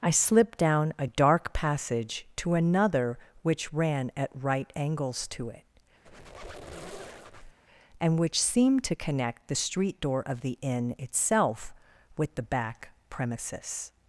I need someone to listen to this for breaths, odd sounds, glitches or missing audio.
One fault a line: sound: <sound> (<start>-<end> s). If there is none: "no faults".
sound: squeak (6.0-7.6 s)